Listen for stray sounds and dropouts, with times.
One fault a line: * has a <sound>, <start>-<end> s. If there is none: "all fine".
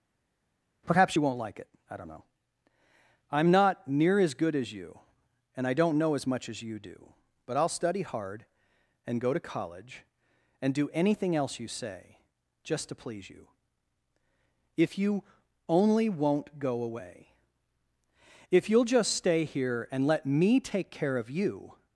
all fine